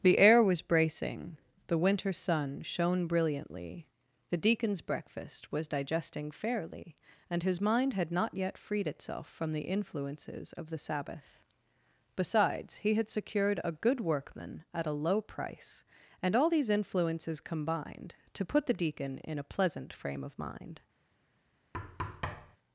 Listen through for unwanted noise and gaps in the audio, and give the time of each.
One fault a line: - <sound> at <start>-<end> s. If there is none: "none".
- thud at 21.7-22.6 s